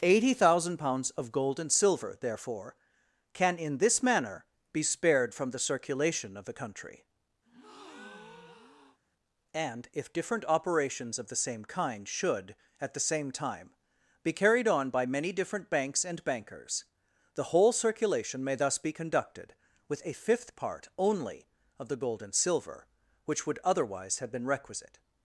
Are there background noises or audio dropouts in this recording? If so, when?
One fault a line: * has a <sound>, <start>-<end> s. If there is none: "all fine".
* has a breath, 7.4-9.0 s